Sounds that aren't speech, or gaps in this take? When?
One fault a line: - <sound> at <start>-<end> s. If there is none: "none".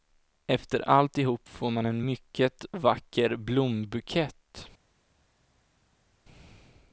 none